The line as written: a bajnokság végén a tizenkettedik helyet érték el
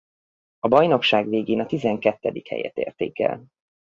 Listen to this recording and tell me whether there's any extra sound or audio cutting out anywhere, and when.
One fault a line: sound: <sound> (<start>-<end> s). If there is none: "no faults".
no faults